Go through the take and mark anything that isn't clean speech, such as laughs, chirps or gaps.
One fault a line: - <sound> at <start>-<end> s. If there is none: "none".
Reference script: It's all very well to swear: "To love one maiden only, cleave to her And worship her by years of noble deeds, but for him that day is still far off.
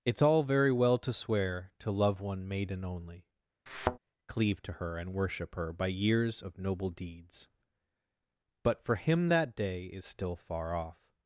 - thud at 3.7-4.0 s